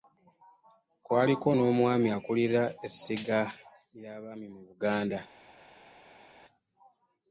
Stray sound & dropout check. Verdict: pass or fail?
pass